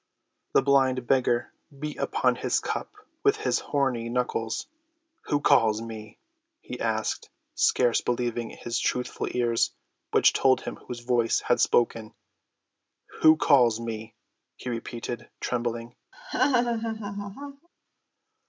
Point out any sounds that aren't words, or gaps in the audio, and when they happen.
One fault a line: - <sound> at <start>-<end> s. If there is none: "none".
- laugh at 16.1-17.7 s